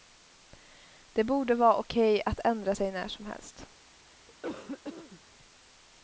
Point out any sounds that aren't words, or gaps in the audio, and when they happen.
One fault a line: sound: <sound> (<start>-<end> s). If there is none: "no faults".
sound: cough (4.3-5.2 s)